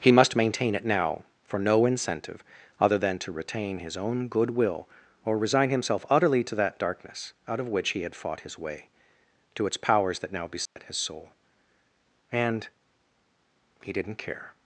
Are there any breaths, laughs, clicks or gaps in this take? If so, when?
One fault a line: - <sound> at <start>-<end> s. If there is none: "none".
- dropout at 10.7-10.8 s